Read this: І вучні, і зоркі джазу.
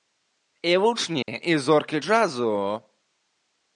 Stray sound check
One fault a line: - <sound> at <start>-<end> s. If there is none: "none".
- dropout at 1.2-1.3 s